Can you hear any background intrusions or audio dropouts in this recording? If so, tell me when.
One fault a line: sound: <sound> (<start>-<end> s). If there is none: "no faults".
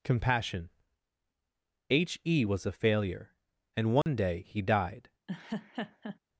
sound: dropout (4.0-4.1 s)
sound: laugh (5.3-6.2 s)